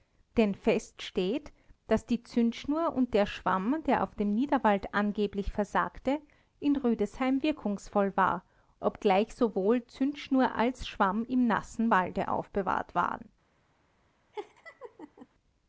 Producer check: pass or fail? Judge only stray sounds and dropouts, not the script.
fail